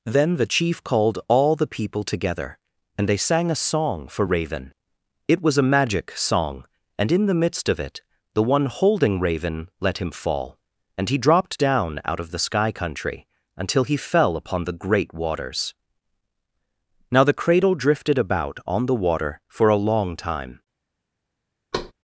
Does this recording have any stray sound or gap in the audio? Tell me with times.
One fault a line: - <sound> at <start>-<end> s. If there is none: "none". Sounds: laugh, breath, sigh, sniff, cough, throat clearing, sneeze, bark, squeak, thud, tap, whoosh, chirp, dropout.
- thud at 21.7-21.9 s